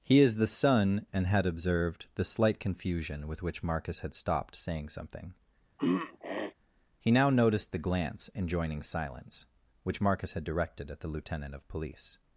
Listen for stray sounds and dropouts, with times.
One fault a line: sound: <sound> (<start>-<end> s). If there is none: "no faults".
sound: throat clearing (5.8-6.5 s)